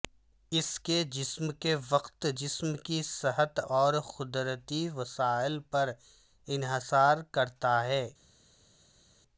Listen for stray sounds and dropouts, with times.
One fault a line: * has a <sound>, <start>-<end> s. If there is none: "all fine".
all fine